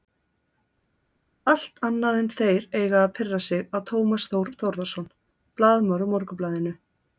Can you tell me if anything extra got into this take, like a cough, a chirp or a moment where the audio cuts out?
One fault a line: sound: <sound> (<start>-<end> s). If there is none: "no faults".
no faults